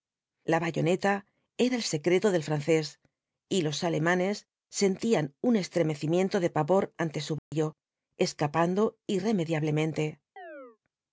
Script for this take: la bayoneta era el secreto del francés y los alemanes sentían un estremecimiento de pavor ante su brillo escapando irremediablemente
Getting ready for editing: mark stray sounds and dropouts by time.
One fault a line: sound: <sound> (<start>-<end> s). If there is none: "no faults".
sound: dropout (7.4-7.5 s)
sound: chirp (10.4-10.8 s)